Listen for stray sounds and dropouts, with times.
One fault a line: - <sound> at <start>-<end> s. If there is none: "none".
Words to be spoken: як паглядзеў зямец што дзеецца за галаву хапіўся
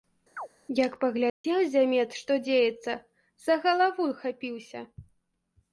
- chirp at 0.4-0.5 s
- dropout at 1.3-1.4 s